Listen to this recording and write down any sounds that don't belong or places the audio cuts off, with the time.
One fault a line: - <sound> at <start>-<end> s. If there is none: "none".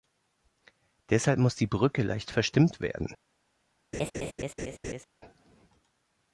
- laugh at 3.9-5.0 s